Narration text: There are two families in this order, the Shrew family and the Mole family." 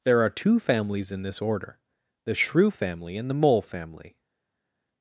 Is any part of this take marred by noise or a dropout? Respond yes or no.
no